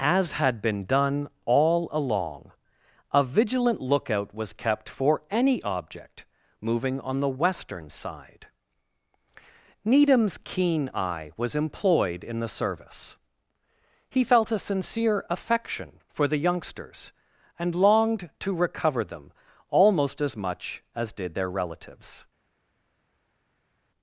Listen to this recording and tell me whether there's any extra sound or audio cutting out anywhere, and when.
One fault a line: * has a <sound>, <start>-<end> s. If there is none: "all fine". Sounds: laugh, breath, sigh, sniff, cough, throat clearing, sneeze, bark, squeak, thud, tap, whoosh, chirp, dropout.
all fine